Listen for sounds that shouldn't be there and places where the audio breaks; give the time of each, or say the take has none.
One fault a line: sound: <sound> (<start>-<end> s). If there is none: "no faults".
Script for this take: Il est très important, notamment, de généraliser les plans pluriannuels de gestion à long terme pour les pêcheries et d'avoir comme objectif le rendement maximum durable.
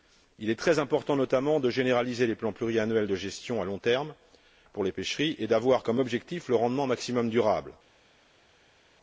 no faults